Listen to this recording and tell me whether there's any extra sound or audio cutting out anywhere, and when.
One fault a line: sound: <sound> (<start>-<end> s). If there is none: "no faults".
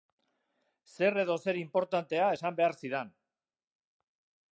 no faults